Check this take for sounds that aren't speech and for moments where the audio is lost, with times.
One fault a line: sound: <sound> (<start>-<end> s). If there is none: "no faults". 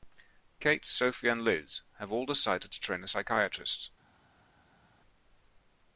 no faults